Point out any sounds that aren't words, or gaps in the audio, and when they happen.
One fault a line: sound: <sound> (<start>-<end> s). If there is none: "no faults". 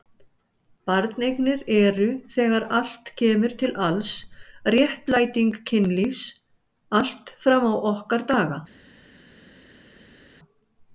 no faults